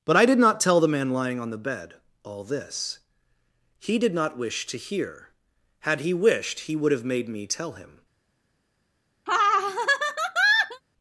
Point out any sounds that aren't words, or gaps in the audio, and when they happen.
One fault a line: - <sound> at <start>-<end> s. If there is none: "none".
- laugh at 9.3-10.8 s